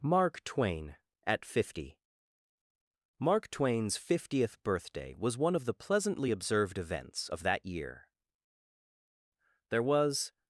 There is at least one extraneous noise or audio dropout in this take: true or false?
false